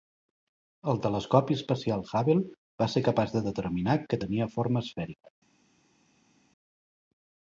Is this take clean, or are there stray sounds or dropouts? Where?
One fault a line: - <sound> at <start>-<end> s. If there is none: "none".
none